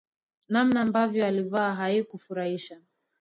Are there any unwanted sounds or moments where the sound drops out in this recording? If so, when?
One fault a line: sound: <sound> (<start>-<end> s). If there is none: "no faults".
no faults